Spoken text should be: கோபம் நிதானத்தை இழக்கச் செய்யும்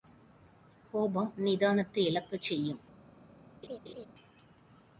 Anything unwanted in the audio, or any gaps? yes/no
yes